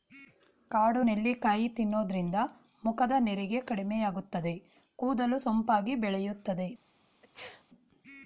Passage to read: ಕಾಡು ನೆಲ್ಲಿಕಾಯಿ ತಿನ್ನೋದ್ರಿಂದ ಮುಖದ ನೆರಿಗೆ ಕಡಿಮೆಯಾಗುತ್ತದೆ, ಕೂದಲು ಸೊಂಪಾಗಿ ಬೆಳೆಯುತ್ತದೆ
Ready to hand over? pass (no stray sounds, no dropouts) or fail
fail